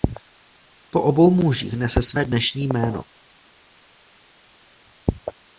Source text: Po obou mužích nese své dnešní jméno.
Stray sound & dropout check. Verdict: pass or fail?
pass